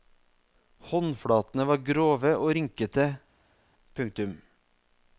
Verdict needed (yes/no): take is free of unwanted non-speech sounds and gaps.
yes